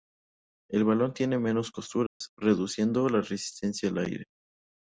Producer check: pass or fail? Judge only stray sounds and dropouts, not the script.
fail